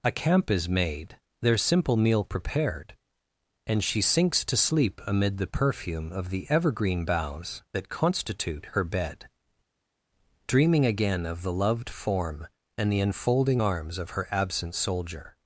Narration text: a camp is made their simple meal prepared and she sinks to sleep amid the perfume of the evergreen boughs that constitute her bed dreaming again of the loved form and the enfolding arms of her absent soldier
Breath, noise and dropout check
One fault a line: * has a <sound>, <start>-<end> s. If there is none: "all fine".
all fine